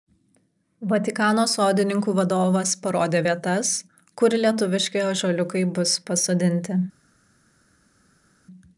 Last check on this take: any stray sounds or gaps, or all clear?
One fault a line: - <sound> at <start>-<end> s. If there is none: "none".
none